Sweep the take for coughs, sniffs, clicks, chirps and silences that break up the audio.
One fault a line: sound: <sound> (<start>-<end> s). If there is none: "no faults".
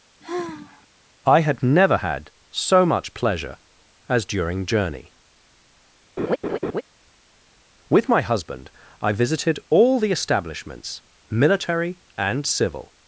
sound: sigh (0.2-0.9 s)
sound: laugh (6.2-6.8 s)